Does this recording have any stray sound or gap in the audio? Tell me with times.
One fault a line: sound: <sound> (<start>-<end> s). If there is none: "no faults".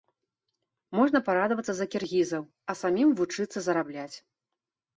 no faults